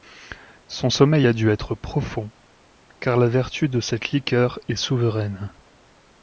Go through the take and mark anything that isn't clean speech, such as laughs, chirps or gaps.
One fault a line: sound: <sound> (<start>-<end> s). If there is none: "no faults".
no faults